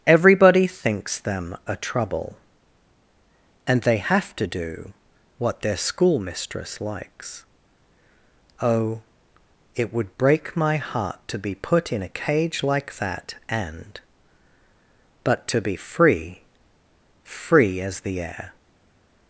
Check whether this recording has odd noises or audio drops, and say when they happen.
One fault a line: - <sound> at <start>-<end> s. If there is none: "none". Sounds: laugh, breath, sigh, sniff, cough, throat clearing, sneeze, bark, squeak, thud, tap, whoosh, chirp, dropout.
none